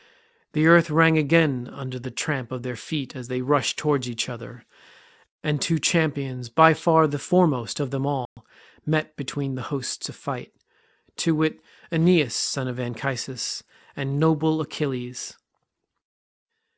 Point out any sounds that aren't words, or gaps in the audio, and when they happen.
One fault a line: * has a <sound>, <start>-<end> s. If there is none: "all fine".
* has a dropout, 8.3-8.4 s